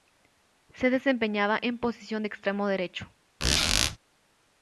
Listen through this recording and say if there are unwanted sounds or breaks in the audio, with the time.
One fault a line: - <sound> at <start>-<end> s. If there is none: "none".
- squeak at 3.4-4.0 s